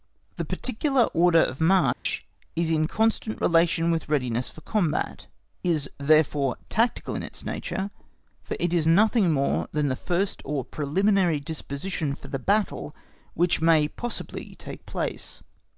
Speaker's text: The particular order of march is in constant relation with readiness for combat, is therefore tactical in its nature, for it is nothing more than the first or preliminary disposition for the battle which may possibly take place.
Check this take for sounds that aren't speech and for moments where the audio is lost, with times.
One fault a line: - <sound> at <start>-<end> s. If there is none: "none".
- dropout at 1.9-2.1 s